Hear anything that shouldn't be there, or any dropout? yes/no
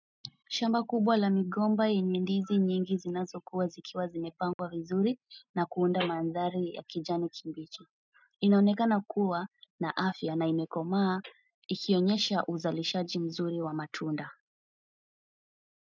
yes